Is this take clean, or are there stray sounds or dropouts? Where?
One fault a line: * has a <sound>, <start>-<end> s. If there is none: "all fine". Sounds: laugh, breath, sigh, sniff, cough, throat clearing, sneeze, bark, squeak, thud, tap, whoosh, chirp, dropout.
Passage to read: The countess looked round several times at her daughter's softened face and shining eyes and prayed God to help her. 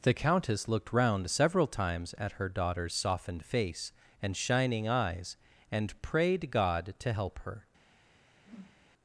* has a whoosh, 8.3-8.9 s